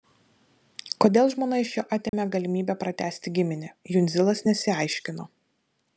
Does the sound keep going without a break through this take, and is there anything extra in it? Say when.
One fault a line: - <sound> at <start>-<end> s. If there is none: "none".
- dropout at 2.1-2.1 s